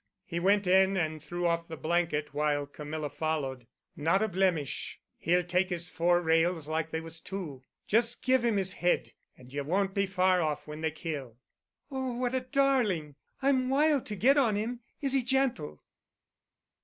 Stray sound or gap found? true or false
false